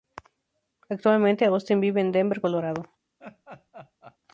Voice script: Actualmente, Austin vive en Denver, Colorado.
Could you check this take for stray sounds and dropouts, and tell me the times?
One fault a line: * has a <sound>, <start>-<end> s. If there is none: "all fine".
* has a laugh, 3.2-4.2 s